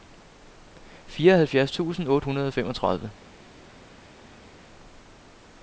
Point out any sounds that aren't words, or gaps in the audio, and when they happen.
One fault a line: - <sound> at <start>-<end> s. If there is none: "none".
none